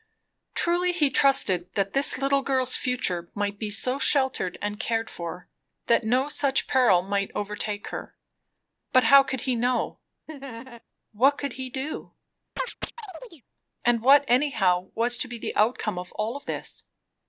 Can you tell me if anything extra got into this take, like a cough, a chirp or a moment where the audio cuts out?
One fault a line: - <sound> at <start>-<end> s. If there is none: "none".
- laugh at 10.3-10.8 s
- chirp at 12.6-13.4 s